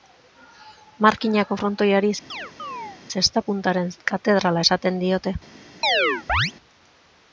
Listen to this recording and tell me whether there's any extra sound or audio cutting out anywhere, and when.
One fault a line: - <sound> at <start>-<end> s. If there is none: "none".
- chirp at 2.3-3.0 s
- chirp at 5.8-6.5 s